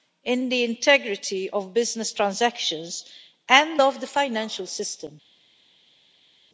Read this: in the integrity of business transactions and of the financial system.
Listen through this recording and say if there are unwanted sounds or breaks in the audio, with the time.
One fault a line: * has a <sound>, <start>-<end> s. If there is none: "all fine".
all fine